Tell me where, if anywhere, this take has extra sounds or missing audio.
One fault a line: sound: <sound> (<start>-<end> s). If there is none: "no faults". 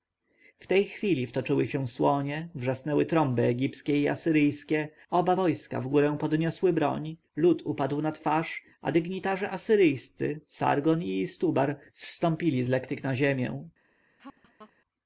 sound: laugh (14.2-14.7 s)